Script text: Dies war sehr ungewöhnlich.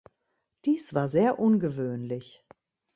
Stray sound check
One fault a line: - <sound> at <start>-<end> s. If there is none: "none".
none